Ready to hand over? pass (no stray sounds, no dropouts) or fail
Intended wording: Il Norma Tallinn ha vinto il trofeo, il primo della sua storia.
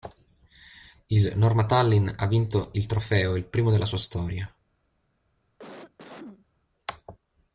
fail